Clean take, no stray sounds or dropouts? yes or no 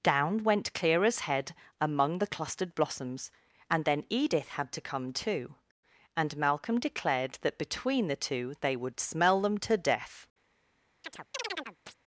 no